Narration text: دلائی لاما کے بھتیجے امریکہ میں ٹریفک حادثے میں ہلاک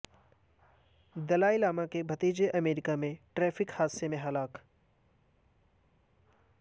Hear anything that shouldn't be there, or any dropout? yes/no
no